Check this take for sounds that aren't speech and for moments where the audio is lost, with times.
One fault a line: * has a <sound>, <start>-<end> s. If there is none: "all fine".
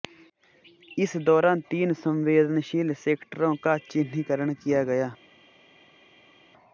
all fine